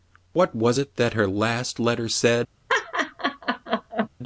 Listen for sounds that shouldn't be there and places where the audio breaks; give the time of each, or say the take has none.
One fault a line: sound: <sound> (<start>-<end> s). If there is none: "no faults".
sound: laugh (2.7-4.1 s)